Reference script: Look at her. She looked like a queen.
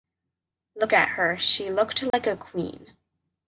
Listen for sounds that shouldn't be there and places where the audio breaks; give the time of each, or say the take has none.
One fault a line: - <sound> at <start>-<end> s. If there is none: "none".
- dropout at 2.1-2.1 s